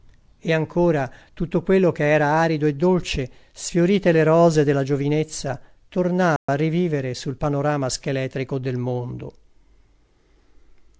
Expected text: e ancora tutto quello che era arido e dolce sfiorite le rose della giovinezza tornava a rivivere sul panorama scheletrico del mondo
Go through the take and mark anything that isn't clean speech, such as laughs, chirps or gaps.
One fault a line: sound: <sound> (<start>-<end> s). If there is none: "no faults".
sound: dropout (6.4-6.5 s)